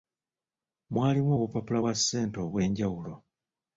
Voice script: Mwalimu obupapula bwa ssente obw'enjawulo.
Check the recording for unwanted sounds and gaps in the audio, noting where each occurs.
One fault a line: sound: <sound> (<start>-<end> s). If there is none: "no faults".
no faults